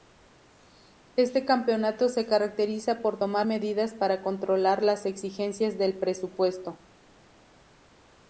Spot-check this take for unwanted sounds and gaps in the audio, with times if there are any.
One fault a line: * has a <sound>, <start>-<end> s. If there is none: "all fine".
all fine